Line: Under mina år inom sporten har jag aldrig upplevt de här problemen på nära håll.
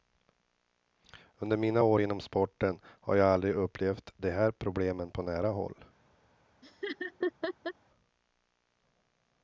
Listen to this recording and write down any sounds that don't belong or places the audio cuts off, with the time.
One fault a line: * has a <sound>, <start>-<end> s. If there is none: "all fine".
* has a laugh, 6.6-7.7 s